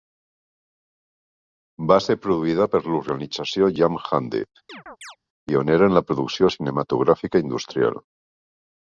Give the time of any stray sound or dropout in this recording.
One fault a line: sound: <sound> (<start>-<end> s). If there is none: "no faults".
sound: chirp (4.7-5.2 s)